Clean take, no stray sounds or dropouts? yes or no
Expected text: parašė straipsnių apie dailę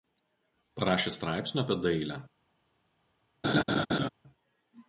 no